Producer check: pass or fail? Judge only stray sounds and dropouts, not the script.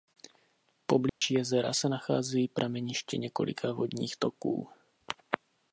fail